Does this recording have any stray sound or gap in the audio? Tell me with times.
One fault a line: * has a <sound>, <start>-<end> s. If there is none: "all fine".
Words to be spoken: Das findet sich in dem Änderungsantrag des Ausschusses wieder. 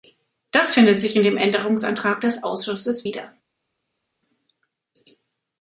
all fine